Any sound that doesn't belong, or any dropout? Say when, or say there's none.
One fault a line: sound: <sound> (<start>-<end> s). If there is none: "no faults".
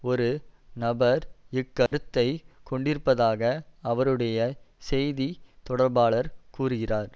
sound: dropout (1.9-1.9 s)